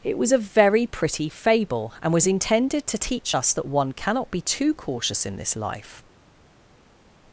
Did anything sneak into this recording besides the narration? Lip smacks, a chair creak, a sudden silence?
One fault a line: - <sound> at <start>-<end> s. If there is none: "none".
none